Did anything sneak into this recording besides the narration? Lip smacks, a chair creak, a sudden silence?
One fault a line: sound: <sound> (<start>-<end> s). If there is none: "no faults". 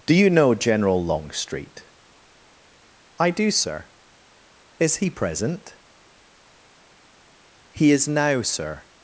no faults